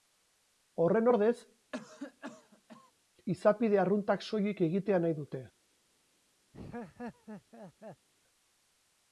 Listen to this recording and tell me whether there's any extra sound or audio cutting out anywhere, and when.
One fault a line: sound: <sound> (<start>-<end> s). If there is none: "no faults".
sound: cough (1.7-2.9 s)
sound: laugh (6.5-8.1 s)